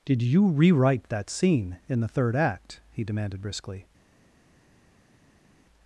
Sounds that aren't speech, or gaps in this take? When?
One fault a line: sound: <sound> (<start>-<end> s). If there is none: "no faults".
no faults